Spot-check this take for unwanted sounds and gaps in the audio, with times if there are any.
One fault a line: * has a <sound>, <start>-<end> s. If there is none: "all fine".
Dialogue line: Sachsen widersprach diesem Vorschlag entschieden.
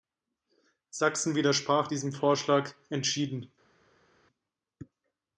all fine